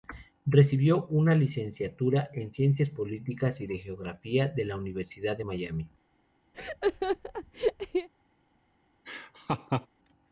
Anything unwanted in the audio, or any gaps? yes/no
yes